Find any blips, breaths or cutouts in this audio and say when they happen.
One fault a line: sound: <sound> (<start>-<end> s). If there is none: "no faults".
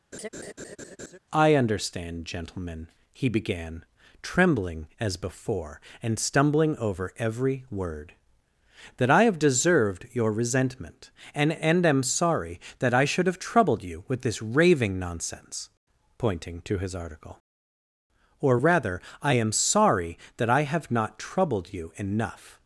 sound: laugh (0.1-1.2 s)